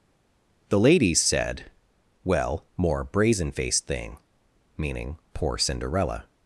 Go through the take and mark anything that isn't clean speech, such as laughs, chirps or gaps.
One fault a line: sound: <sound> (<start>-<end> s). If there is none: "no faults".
no faults